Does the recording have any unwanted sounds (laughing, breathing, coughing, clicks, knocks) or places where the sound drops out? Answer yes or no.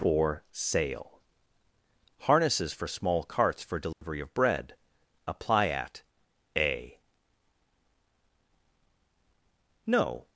yes